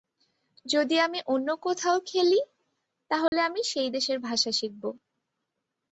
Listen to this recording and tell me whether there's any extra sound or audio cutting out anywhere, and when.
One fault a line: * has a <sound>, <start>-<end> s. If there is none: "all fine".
* has a dropout, 3.3-3.3 s